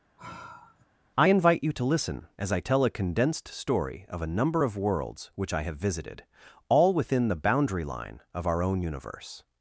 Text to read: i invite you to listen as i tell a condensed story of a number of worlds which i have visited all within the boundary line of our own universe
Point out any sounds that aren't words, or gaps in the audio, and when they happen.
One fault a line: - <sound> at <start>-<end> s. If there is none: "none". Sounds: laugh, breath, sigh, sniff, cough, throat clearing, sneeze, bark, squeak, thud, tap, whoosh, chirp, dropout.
- sigh at 0.2-0.9 s